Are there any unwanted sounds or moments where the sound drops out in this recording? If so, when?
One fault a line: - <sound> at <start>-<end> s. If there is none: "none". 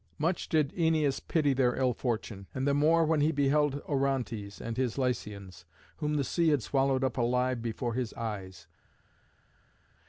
none